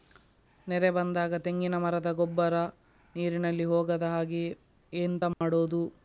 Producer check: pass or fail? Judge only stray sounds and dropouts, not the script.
fail